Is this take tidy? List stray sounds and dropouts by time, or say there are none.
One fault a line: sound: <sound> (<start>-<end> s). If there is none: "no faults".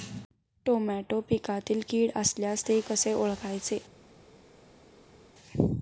no faults